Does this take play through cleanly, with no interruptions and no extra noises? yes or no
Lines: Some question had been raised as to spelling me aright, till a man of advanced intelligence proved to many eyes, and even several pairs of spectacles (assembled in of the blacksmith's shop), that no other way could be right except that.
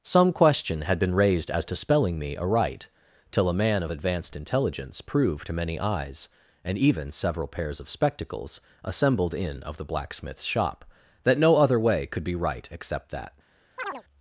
no